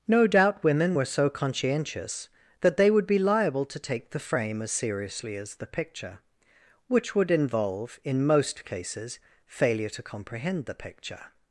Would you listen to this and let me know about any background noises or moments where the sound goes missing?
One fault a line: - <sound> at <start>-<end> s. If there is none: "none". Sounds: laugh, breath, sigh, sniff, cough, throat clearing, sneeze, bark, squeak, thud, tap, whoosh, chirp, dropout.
none